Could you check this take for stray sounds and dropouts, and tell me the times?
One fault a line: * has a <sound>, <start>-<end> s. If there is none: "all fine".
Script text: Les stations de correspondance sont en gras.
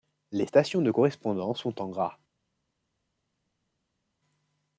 all fine